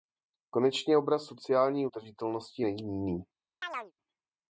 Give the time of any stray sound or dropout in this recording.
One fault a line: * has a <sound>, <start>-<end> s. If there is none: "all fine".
* has a chirp, 3.6-3.9 s